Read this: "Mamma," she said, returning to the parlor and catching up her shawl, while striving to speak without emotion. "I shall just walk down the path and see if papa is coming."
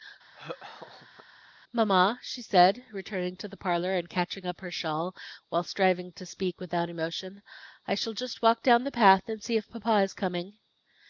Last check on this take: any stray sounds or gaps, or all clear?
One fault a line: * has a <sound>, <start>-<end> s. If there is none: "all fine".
* has a laugh, 0.3-1.3 s